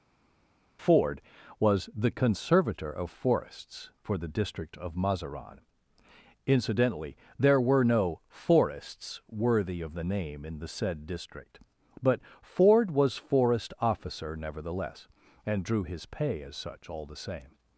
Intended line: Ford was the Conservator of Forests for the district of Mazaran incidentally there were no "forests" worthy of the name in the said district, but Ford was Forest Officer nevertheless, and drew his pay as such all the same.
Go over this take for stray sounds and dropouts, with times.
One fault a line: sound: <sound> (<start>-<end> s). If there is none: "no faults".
no faults